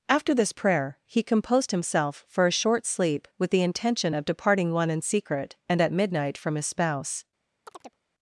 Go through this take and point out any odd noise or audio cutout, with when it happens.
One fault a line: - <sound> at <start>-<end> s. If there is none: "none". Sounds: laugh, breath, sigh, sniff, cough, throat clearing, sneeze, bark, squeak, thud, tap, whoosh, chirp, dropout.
- chirp at 7.7-8.0 s